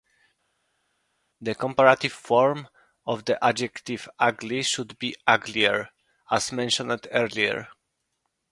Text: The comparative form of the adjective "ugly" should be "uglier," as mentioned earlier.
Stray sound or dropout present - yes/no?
no